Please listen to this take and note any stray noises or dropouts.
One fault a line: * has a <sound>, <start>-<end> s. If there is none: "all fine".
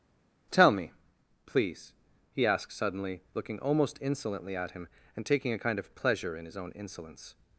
all fine